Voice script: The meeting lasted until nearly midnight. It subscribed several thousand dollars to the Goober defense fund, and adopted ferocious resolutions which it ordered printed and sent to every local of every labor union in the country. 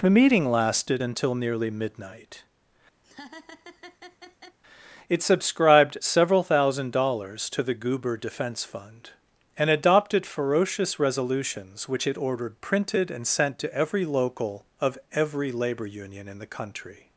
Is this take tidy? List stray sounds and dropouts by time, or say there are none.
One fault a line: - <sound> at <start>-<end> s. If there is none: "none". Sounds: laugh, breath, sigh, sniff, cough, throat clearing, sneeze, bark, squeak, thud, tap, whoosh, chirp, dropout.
- laugh at 3.0-4.6 s